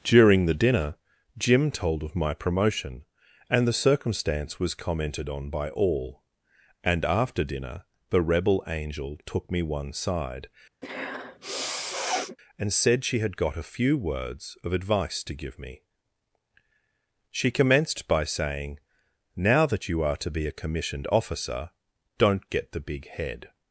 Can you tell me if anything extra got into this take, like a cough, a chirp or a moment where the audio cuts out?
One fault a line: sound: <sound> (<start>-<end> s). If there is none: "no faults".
sound: sniff (10.8-12.4 s)